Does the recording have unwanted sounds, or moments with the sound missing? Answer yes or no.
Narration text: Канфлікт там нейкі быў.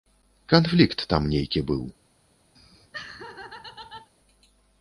yes